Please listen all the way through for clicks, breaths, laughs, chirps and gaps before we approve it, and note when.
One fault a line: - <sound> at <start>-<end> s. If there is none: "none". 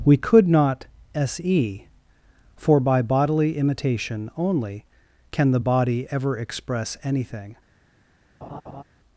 - laugh at 8.4-8.8 s